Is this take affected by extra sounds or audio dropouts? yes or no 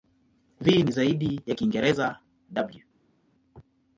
no